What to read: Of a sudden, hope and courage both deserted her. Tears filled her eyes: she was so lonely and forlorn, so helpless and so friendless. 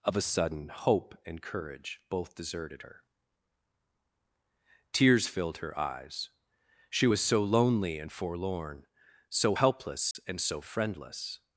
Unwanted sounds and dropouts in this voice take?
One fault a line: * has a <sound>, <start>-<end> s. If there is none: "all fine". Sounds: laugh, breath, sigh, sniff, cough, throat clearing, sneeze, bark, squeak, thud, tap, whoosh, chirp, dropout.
* has a dropout, 10.1-10.2 s